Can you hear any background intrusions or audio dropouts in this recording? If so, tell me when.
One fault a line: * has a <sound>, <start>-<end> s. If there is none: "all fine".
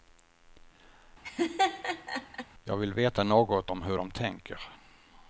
* has a laugh, 1.2-2.5 s